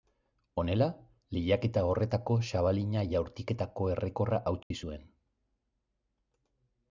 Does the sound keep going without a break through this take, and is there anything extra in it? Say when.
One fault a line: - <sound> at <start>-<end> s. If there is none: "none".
- dropout at 4.6-4.7 s